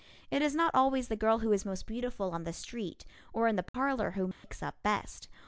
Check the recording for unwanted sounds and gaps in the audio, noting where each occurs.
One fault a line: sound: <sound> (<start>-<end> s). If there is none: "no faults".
sound: dropout (3.7-3.7 s)
sound: dropout (4.3-4.4 s)